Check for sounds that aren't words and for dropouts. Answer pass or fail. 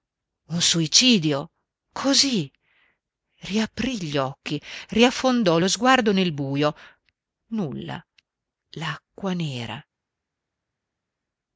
pass